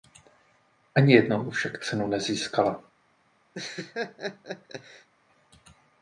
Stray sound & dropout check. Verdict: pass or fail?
fail